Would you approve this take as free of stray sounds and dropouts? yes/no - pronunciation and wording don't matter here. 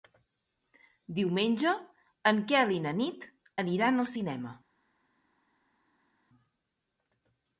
yes